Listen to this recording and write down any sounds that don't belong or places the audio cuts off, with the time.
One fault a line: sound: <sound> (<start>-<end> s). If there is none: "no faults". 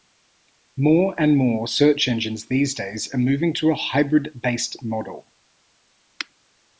no faults